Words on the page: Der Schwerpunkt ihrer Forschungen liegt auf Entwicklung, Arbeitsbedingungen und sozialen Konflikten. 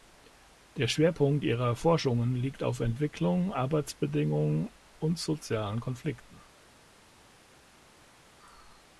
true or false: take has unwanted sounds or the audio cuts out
false